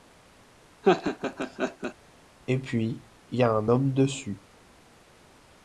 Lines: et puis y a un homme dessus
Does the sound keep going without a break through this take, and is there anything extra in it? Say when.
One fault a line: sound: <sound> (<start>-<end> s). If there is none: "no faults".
sound: laugh (0.8-1.9 s)